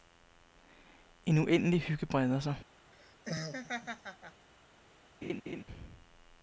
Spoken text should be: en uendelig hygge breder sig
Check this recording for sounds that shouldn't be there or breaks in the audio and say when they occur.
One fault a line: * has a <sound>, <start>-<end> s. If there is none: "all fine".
* has a laugh, 2.9-4.5 s
* has a laugh, 5.2-5.6 s